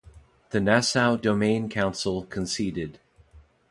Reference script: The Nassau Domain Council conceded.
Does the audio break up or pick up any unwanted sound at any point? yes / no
no